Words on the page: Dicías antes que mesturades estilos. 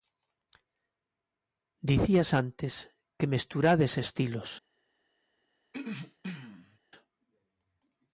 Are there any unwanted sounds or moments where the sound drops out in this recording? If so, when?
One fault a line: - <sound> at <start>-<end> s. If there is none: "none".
- throat clearing at 5.7-6.8 s